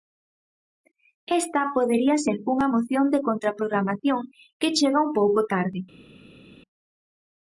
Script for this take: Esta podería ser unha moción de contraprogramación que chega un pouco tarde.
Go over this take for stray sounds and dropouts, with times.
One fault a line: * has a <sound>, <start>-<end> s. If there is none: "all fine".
all fine